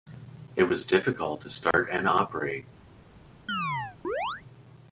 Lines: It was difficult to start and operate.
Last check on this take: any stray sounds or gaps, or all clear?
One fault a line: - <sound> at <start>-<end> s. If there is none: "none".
- dropout at 1.7-1.7 s
- chirp at 3.5-4.4 s